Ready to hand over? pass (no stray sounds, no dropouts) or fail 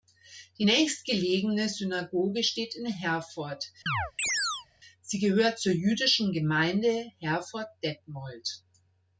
fail